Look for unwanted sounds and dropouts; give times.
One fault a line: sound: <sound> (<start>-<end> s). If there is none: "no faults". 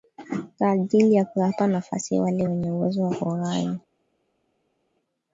no faults